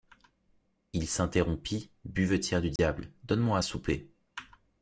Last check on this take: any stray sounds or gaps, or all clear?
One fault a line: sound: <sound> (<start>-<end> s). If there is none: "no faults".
sound: dropout (2.8-2.8 s)